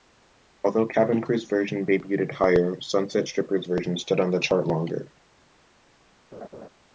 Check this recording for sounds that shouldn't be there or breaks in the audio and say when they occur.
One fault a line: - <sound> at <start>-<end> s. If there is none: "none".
- laugh at 6.3-6.7 s